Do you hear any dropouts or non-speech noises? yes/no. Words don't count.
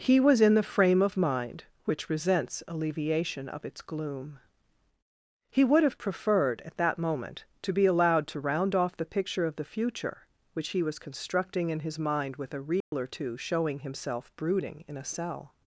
yes